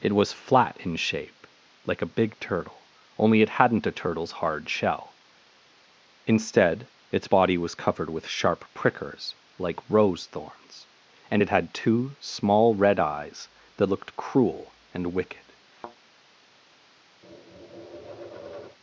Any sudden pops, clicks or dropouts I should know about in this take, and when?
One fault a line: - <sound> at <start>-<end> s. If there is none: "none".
- thud at 15.7-16.0 s
- tap at 17.2-18.8 s